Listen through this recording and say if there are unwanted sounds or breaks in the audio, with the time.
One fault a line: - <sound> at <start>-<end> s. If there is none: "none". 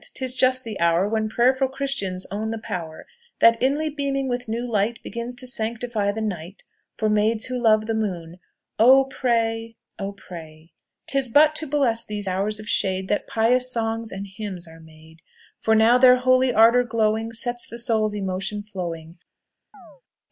- chirp at 19.7-20.0 s